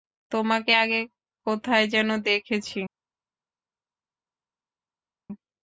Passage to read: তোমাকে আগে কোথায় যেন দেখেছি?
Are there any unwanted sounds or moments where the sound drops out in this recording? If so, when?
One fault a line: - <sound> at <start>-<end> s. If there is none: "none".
none